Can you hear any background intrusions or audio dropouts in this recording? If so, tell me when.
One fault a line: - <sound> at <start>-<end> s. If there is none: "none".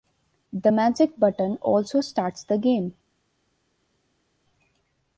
none